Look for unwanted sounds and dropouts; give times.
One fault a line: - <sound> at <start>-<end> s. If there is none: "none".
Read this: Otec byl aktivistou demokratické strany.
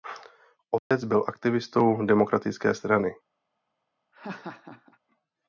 - dropout at 0.8-0.9 s
- laugh at 4.1-5.0 s